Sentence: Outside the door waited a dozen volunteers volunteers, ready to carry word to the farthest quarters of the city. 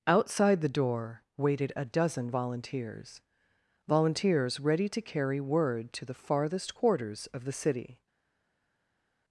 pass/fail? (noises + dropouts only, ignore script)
pass